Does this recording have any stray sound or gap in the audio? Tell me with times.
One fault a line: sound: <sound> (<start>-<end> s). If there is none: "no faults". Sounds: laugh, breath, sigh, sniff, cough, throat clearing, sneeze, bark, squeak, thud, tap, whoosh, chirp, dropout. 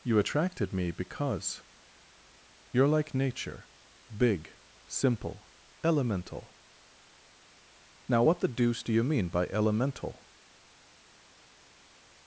no faults